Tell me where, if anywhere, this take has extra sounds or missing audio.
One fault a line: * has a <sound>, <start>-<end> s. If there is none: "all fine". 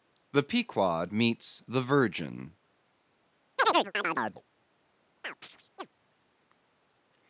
* has a chirp, 3.6-4.4 s
* has a chirp, 5.2-5.9 s